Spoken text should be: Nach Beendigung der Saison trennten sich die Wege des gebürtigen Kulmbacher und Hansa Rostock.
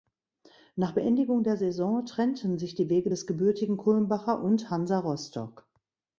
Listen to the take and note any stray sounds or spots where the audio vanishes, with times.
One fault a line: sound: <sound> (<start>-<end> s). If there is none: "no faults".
no faults